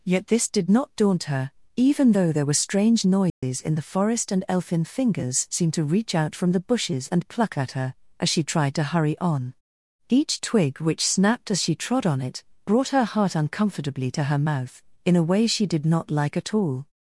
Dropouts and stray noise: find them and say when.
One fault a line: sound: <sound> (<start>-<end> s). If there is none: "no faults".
sound: dropout (3.3-3.4 s)